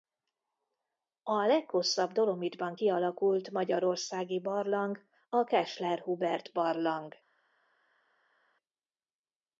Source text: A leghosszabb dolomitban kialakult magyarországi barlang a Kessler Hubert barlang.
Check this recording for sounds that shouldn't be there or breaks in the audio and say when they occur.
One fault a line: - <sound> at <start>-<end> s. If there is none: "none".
none